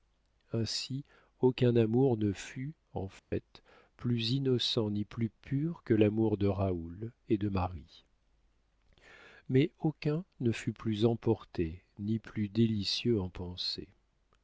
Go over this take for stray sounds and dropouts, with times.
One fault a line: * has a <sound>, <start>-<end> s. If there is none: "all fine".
* has a dropout, 3.2-3.3 s